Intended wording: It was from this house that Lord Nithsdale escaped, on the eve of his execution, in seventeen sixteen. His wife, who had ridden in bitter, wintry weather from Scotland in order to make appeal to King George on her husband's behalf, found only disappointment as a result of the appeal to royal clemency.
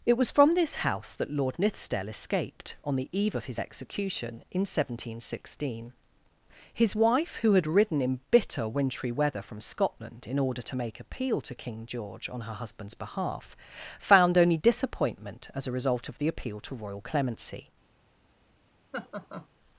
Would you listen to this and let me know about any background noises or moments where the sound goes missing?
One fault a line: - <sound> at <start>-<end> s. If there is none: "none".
- laugh at 18.9-19.5 s